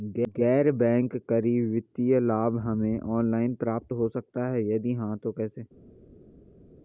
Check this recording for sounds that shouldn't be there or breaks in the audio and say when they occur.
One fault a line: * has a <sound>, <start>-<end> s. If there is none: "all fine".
all fine